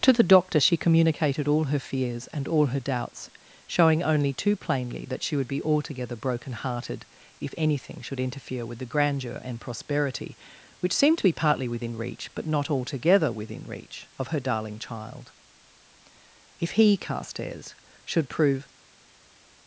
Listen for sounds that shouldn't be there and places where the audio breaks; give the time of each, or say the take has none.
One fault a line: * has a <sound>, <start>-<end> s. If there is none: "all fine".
all fine